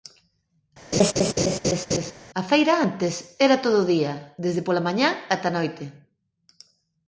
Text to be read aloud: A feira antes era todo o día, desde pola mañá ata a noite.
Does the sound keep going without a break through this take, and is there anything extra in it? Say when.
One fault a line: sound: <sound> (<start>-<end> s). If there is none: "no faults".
sound: laugh (0.9-2.1 s)